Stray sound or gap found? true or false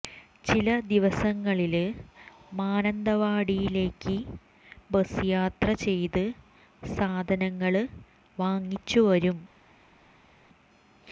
false